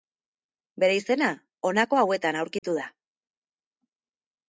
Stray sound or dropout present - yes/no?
yes